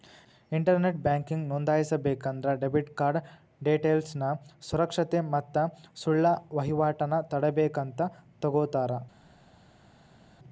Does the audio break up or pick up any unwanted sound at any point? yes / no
no